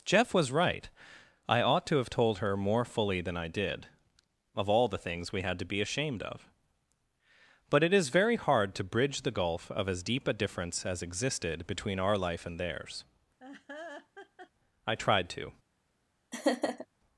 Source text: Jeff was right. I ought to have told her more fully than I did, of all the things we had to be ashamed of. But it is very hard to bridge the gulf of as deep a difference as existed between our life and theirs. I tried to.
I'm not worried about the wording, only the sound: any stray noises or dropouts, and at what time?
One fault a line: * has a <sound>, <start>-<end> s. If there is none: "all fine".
* has a laugh, 13.4-14.5 s
* has a laugh, 16.3-16.9 s